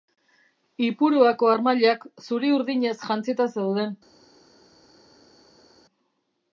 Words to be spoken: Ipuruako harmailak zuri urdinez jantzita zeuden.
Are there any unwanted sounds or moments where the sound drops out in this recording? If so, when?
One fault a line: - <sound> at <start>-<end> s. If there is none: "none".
none